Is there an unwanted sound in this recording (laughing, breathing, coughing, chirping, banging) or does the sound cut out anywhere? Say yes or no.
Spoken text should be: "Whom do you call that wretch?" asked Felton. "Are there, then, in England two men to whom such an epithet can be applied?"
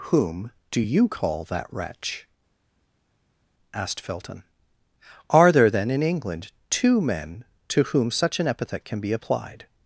no